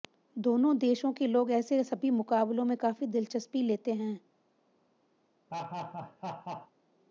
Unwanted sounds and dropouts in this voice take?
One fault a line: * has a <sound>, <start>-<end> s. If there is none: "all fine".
* has a laugh, 5.5-6.7 s